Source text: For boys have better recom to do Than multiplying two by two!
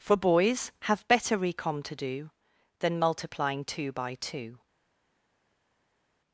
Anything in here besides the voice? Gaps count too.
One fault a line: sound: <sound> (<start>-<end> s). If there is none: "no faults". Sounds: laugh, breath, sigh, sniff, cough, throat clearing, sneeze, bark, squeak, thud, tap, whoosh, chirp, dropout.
no faults